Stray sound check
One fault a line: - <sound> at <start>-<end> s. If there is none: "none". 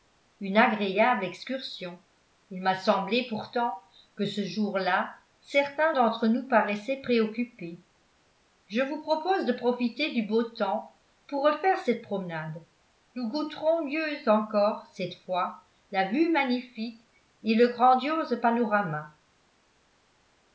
none